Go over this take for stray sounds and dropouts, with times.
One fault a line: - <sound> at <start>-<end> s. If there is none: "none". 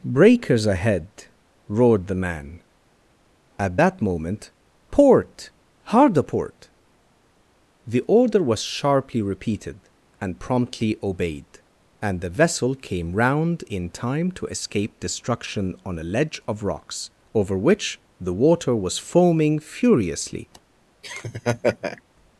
- laugh at 21.0-22.0 s